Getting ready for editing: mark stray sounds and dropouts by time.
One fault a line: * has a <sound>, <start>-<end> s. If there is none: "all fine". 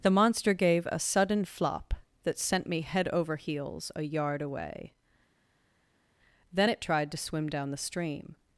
all fine